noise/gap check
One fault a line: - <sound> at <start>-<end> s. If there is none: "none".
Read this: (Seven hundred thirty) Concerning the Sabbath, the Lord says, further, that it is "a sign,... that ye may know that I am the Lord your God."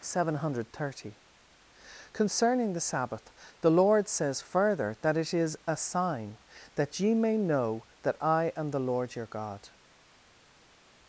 none